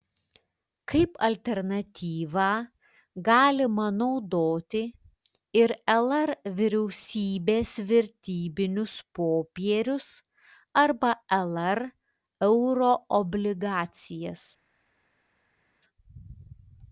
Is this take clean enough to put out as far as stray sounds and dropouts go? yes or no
yes